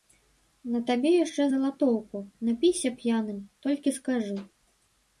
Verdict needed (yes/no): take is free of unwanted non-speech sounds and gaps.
yes